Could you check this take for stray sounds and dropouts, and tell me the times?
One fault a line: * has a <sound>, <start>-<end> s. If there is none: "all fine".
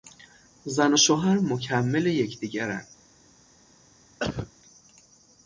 * has a cough, 4.2-4.5 s